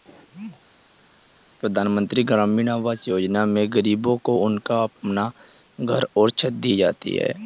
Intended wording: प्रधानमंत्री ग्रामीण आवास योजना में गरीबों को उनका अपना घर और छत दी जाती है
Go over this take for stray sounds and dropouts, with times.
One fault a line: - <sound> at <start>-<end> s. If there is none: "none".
none